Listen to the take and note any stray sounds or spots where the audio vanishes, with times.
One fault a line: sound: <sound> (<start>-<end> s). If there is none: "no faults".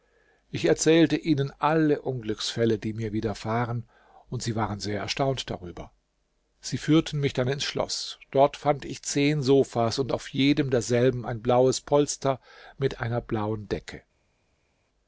no faults